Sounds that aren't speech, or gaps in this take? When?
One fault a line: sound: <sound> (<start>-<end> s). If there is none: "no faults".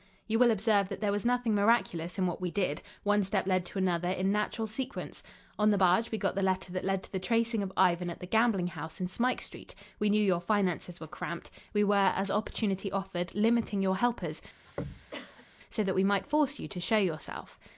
sound: throat clearing (14.6-15.5 s)